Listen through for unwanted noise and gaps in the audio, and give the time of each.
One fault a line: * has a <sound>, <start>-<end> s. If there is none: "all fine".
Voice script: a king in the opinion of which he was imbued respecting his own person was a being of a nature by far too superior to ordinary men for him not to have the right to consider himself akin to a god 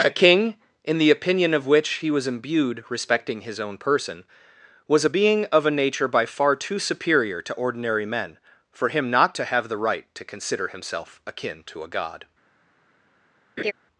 * has a laugh, 13.6-13.7 s